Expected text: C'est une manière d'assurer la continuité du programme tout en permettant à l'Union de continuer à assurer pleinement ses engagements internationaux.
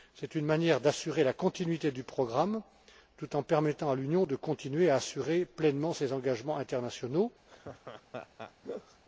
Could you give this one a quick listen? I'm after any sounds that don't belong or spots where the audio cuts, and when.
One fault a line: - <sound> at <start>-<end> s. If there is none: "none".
- laugh at 7.5-9.0 s